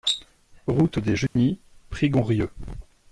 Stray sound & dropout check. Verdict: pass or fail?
fail